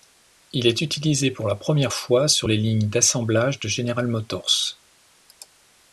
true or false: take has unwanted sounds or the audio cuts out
false